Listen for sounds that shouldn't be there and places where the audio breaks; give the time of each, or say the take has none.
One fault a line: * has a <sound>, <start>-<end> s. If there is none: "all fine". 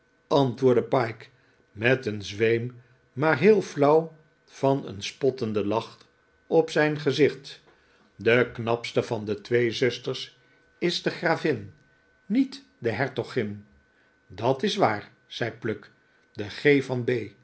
all fine